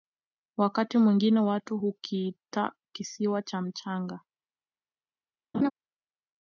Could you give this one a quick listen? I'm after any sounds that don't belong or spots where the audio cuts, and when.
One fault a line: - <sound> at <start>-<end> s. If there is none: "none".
- laugh at 5.5-5.7 s